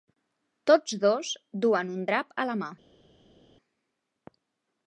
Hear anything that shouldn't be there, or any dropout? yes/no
no